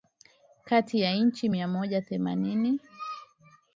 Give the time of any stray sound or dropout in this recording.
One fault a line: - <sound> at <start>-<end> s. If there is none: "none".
none